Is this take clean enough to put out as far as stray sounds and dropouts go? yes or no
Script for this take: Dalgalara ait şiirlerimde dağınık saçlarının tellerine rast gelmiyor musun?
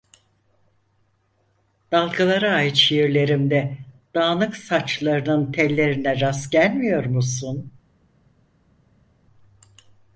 yes